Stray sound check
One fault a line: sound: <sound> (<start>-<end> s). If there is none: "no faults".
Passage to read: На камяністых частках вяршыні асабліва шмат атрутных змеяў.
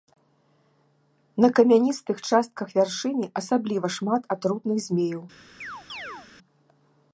sound: chirp (5.6-6.3 s)